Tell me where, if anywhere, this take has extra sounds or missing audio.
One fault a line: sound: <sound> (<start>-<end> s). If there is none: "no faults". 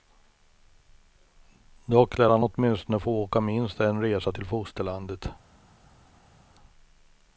no faults